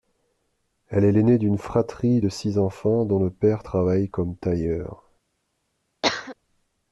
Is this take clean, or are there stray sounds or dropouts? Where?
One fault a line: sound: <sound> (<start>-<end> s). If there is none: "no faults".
sound: cough (6.0-6.4 s)